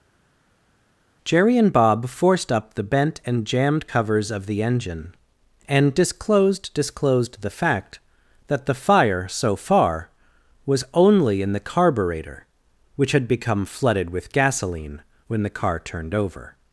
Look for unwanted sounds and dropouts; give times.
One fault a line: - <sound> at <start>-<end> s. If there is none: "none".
none